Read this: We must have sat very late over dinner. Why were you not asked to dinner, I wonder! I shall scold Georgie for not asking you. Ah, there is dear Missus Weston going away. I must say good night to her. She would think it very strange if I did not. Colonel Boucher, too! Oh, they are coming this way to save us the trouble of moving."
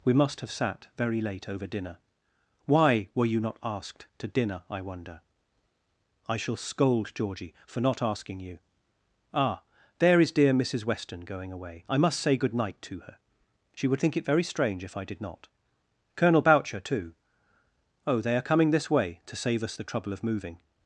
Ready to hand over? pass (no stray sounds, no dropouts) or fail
pass